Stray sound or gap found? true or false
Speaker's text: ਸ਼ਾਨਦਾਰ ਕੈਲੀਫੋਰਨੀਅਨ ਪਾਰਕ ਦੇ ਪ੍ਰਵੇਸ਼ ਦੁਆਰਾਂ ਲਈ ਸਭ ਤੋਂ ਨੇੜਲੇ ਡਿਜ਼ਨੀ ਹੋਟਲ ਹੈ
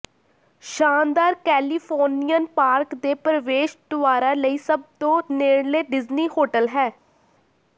false